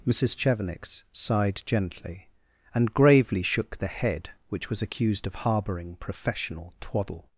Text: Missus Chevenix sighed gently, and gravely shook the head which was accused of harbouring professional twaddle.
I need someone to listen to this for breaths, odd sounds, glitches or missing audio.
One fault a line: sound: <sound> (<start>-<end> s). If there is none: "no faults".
no faults